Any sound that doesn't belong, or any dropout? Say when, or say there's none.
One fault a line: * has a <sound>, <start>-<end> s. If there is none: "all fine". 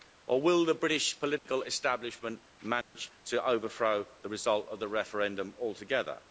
* has a dropout, 1.4-1.5 s
* has a dropout, 2.8-3.0 s